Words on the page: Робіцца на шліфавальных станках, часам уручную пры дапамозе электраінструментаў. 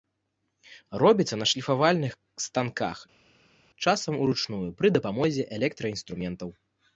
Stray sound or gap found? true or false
false